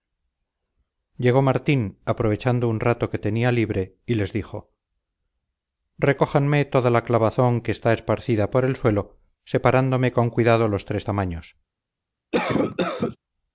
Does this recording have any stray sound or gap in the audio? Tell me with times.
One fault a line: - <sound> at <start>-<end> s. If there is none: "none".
- cough at 12.3-13.2 s